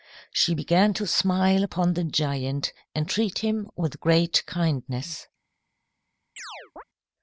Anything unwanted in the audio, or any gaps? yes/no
yes